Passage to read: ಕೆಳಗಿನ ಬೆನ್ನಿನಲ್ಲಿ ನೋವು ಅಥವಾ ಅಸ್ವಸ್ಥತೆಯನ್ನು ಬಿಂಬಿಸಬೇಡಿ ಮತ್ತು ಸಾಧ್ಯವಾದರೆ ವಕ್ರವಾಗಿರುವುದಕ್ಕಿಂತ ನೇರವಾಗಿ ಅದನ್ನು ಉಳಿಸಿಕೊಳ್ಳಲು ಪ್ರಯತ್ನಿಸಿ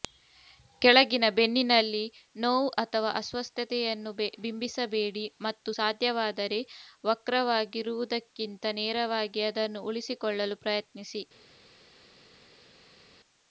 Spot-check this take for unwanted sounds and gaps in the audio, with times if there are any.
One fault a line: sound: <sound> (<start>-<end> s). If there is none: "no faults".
no faults